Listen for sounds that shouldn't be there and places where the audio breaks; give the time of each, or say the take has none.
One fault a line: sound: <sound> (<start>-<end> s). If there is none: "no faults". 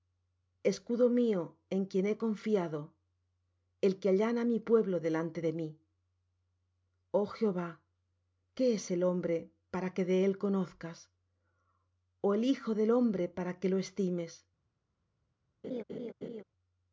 sound: laugh (15.6-16.4 s)